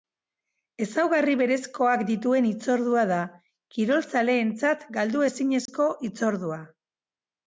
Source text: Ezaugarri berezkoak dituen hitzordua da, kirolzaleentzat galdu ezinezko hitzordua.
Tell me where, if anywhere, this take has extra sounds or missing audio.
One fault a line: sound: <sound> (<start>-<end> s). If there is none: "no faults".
sound: dropout (5.7-5.7 s)